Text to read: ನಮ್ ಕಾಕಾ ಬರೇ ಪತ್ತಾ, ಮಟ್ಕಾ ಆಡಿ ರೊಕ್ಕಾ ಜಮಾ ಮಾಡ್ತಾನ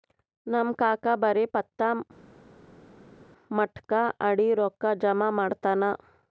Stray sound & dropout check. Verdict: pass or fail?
pass